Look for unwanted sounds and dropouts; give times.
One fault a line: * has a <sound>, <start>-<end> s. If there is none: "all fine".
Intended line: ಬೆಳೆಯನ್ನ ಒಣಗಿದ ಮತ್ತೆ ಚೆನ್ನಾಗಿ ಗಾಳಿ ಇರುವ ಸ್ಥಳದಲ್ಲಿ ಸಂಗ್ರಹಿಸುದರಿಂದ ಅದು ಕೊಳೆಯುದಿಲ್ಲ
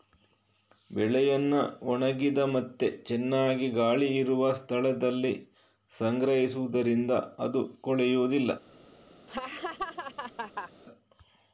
* has a laugh, 9.3-10.7 s